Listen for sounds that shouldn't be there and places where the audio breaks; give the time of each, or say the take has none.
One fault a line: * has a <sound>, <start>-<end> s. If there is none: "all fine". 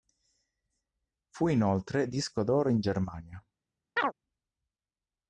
* has a chirp, 4.0-4.1 s